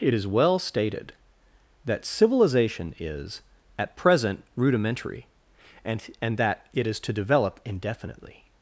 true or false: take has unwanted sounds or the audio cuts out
false